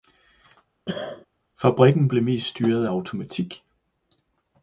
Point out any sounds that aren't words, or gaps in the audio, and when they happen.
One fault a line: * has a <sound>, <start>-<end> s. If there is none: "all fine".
* has a cough, 0.9-1.3 s